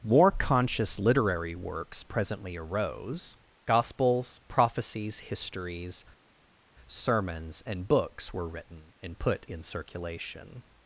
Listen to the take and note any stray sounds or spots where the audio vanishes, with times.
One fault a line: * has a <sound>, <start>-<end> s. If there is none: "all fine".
all fine